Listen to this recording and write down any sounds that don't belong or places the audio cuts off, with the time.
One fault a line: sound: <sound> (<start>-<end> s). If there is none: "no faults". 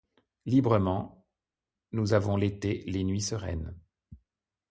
no faults